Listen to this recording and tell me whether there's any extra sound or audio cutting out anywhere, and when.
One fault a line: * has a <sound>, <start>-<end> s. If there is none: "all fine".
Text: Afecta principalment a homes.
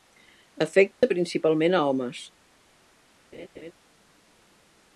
* has a dropout, 0.9-1.0 s
* has a laugh, 3.3-3.7 s